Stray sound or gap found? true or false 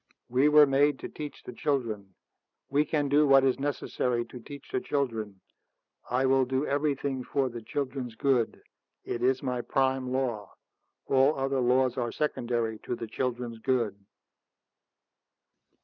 false